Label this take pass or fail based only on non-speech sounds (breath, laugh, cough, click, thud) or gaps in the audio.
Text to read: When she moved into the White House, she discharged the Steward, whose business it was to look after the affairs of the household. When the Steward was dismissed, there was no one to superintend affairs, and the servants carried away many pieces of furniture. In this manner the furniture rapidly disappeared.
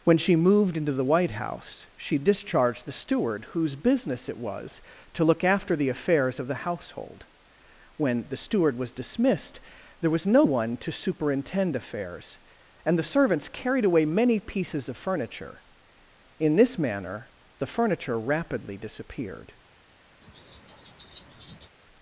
fail